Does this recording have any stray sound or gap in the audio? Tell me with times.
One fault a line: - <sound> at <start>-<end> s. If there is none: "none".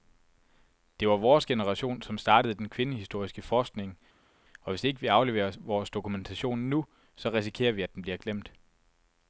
none